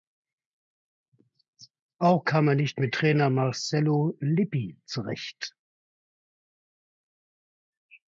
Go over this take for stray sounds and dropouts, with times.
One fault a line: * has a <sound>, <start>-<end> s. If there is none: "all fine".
all fine